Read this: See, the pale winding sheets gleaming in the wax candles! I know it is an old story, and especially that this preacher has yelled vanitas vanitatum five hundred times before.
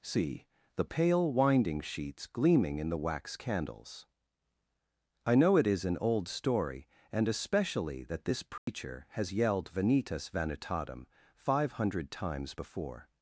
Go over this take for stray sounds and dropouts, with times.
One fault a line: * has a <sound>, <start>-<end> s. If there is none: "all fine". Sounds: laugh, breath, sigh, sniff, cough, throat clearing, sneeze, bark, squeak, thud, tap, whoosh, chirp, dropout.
* has a dropout, 8.6-8.7 s